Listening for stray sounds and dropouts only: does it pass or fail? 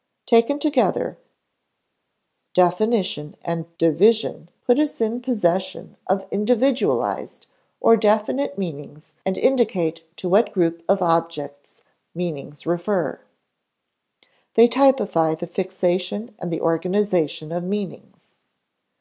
pass